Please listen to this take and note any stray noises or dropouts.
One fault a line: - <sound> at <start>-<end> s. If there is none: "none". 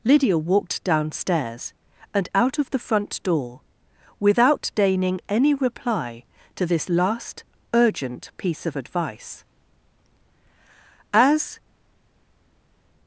none